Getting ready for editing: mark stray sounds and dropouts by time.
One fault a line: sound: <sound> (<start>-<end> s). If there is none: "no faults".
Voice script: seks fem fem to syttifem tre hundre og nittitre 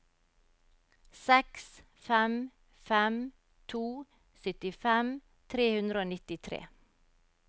no faults